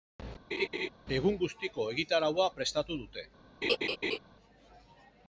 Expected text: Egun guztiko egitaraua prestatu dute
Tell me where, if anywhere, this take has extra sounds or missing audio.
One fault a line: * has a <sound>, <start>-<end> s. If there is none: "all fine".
* has a laugh, 0.5-0.9 s
* has a laugh, 3.6-4.2 s